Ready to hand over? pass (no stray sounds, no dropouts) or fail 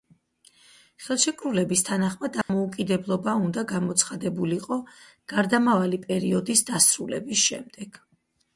fail